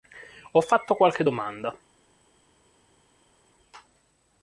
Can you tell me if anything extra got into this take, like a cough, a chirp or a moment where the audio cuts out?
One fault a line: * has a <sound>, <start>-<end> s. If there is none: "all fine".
all fine